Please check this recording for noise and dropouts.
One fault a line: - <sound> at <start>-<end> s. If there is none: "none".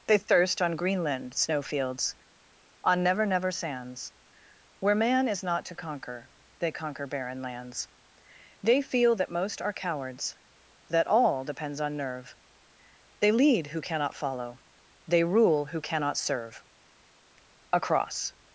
none